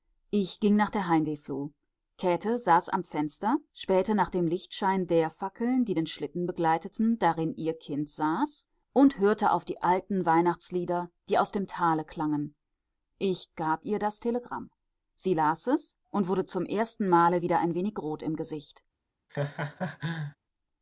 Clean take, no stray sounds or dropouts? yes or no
no